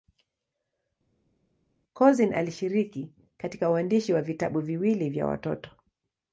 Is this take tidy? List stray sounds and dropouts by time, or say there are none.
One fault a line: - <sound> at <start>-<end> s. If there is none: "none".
none